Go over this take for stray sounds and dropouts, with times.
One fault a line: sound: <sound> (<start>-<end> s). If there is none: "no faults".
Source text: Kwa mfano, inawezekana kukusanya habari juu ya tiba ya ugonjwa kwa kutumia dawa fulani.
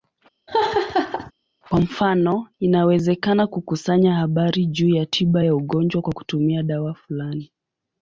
sound: laugh (0.5-1.3 s)